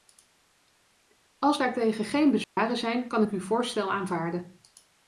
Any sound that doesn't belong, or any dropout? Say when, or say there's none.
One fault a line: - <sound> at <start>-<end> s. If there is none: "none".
- dropout at 2.4-2.6 s